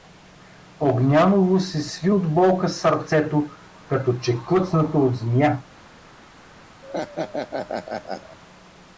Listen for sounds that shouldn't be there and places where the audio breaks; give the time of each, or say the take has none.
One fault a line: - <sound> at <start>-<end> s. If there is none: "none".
- laugh at 6.8-8.4 s